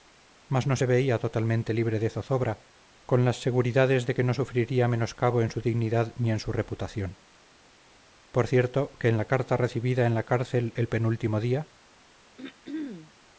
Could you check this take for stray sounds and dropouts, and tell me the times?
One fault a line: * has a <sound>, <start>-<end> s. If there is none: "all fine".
* has a throat clearing, 12.4-13.1 s